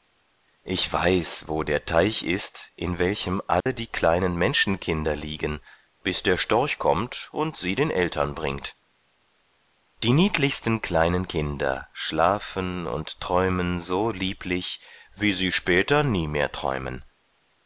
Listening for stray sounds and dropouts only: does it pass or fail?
fail